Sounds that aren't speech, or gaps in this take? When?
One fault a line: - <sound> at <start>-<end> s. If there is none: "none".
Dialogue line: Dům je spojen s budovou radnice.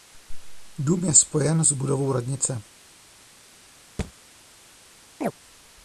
- thud at 4.0-4.1 s
- chirp at 5.2-5.3 s